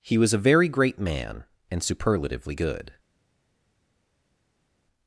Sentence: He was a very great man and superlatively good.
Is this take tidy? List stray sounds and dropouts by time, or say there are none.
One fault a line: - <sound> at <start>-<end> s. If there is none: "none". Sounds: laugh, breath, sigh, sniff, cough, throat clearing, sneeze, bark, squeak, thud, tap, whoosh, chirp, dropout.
none